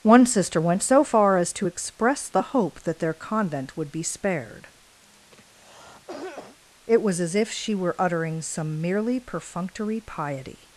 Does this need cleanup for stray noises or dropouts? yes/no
yes